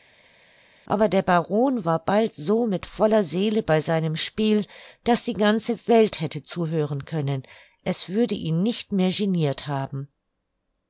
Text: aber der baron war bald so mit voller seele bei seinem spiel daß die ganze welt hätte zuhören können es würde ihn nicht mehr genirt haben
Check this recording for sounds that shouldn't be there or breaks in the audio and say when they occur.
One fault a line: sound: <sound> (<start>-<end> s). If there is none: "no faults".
no faults